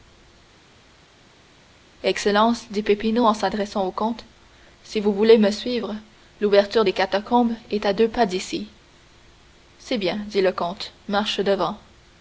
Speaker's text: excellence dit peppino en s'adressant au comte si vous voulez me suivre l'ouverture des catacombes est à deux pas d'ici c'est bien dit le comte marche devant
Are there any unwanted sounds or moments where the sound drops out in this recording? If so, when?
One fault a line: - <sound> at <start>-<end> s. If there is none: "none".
none